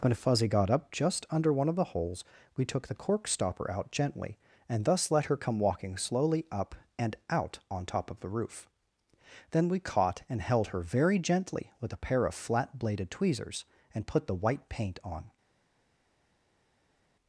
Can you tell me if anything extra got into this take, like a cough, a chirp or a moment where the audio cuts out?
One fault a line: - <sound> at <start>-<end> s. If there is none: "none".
none